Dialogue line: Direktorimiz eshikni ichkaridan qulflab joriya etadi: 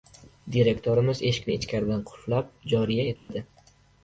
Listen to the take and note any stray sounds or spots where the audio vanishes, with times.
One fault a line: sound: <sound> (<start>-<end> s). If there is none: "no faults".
sound: dropout (3.2-3.3 s)